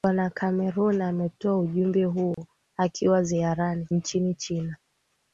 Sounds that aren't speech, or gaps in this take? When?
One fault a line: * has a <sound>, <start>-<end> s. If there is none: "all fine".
* has a dropout, 2.3-2.4 s